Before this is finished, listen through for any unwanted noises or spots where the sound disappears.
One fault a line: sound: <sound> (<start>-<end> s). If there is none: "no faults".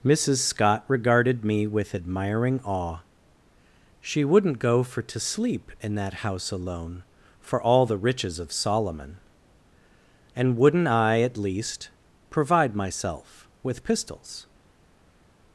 no faults